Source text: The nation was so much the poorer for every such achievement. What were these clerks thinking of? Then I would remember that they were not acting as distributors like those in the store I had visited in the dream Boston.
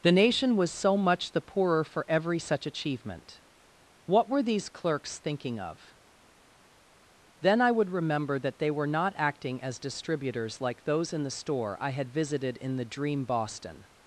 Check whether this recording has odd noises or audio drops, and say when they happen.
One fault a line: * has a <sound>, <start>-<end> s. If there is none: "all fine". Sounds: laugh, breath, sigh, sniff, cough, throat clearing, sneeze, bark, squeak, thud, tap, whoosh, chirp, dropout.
all fine